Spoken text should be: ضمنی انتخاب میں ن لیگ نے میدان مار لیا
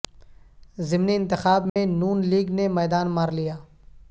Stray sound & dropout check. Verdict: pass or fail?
fail